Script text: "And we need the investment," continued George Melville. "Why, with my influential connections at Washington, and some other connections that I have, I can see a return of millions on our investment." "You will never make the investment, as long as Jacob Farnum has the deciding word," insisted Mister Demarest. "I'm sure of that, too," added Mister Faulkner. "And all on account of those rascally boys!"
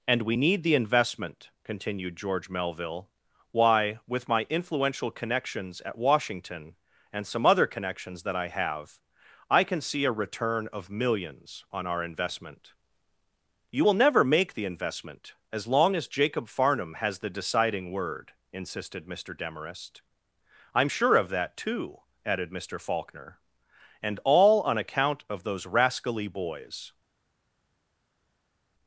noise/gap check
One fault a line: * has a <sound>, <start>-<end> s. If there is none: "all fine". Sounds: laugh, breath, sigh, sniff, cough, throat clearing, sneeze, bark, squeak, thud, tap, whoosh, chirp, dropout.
all fine